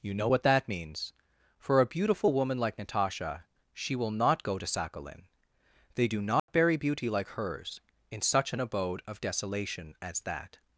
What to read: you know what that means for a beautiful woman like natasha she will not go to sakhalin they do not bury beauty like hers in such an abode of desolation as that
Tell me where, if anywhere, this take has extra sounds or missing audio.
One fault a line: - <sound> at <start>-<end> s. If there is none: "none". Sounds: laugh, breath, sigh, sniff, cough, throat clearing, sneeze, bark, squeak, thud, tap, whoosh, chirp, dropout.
- dropout at 6.4-6.5 s